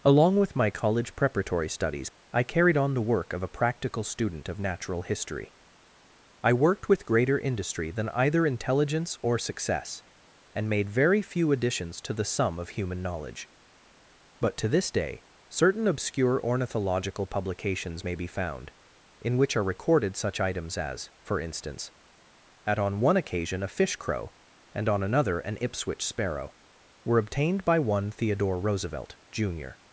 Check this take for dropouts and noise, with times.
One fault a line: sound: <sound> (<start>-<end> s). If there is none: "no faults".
no faults